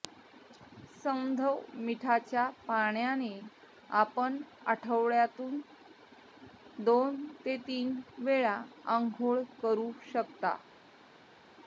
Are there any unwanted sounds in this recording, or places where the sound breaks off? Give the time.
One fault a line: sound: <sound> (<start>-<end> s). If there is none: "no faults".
no faults